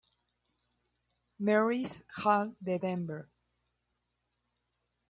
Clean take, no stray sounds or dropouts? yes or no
yes